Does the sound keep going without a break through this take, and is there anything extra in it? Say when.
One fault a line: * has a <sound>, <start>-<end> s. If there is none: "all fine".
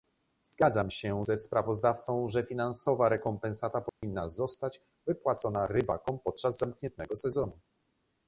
* has a dropout, 3.9-4.0 s